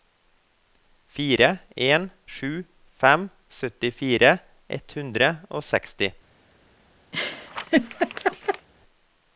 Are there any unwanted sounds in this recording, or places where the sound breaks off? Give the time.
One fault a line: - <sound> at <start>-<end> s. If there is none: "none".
- laugh at 7.1-8.7 s